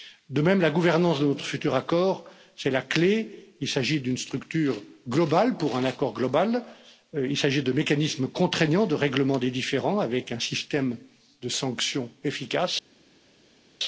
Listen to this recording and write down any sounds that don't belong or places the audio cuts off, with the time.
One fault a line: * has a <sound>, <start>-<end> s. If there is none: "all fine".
all fine